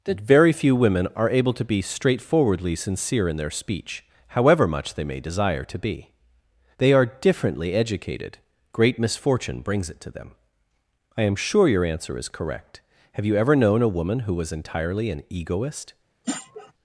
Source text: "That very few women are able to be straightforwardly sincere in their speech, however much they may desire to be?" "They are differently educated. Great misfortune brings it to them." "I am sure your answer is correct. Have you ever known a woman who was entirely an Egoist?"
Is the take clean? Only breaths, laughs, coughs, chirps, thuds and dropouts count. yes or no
no